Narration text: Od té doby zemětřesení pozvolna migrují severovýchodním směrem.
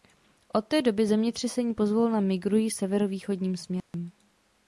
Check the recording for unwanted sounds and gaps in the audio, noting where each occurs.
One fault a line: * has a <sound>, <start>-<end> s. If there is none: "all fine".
* has a dropout, 3.8-3.9 s